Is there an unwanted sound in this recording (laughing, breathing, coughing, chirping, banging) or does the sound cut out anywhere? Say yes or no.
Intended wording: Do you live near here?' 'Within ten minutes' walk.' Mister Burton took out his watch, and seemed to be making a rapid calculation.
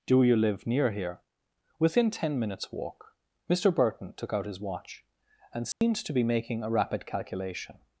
yes